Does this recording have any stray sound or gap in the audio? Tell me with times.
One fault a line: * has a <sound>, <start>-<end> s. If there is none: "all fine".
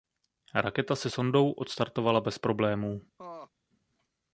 * has a laugh, 3.2-3.5 s